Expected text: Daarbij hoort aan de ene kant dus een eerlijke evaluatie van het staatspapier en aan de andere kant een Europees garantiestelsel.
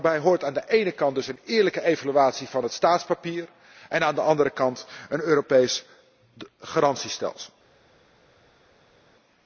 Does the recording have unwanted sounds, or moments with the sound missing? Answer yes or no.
no